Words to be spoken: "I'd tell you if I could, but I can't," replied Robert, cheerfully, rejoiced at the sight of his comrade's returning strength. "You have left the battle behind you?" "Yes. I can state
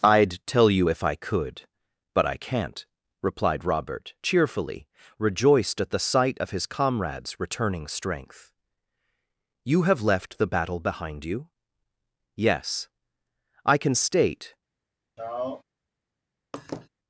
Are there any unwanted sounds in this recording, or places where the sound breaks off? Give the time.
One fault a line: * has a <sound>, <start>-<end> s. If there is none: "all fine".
* has a sigh, 15.2-15.6 s
* has a laugh, 16.5-16.9 s